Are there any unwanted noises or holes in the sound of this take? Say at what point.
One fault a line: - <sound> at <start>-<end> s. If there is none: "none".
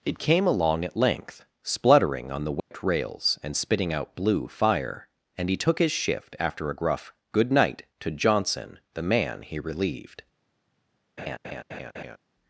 - dropout at 2.6-2.7 s
- laugh at 11.2-12.2 s